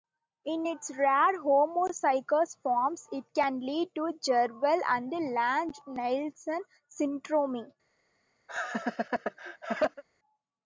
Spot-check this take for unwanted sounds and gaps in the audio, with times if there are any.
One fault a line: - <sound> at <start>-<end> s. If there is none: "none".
- laugh at 8.5-10.0 s